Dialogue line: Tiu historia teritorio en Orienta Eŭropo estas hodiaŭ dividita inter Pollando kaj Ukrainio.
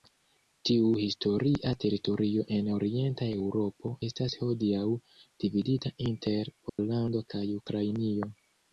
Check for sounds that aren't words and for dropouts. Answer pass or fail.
fail